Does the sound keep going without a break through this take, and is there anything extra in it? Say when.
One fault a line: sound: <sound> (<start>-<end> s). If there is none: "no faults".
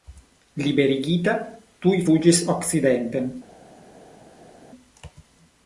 no faults